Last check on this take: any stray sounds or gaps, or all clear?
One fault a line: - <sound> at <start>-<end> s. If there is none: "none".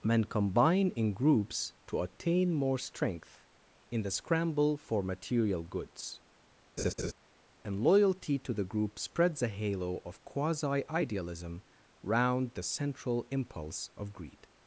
- laugh at 6.8-7.1 s